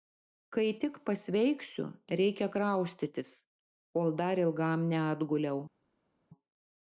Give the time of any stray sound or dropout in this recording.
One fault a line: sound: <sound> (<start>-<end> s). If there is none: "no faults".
no faults